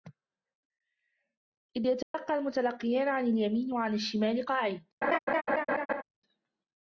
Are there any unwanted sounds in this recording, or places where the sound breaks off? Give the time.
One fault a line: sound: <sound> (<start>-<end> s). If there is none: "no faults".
sound: dropout (2.0-2.1 s)
sound: laugh (5.0-6.0 s)